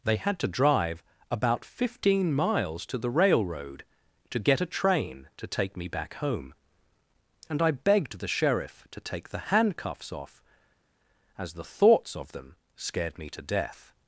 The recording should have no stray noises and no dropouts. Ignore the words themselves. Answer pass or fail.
pass